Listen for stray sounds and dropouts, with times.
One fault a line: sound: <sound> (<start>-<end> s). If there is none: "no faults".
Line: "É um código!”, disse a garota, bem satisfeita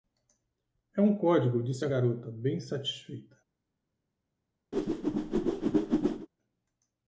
sound: whoosh (4.7-6.3 s)